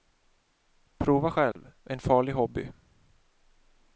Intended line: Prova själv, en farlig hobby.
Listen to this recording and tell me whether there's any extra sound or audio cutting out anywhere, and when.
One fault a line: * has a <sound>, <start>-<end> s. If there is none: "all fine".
* has a dropout, 1.5-1.6 s